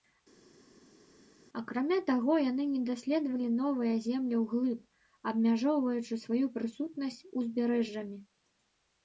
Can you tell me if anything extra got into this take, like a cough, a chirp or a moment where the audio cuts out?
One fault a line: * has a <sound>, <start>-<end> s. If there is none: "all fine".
all fine